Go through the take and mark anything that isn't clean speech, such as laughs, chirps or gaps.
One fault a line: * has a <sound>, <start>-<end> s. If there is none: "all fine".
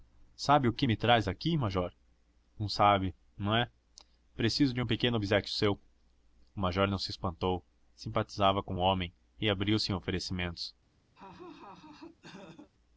* has a laugh, 11.2-12.7 s